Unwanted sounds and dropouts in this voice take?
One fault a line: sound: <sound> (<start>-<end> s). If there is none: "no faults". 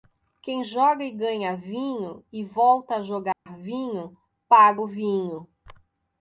sound: dropout (3.3-3.5 s)